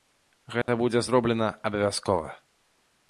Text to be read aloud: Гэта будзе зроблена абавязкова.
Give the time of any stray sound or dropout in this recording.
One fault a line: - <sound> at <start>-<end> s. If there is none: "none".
- dropout at 0.6-0.7 s